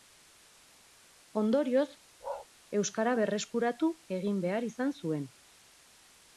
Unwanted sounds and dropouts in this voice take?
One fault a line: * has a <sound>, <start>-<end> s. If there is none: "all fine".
* has a bark, 2.2-2.5 s